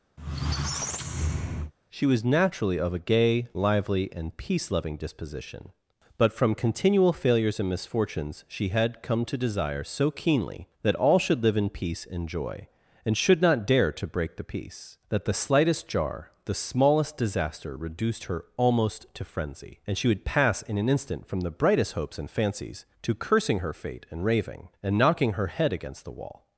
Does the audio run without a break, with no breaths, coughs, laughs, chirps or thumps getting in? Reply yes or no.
no